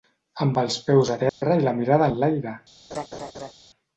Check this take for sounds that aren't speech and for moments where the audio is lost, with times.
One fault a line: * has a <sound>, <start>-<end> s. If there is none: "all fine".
* has a dropout, 1.3-1.4 s
* has a laugh, 2.9-3.5 s